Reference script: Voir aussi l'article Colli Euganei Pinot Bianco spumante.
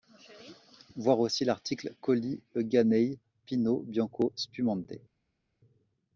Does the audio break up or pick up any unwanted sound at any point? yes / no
no